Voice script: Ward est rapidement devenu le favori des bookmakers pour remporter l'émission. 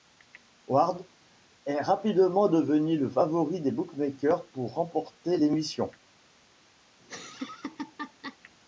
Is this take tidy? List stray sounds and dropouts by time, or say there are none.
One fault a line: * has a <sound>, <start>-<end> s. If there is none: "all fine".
* has a laugh, 7.0-8.4 s